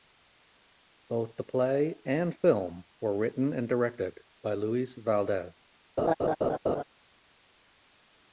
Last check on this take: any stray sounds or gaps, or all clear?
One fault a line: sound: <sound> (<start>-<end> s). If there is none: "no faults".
sound: laugh (6.0-6.8 s)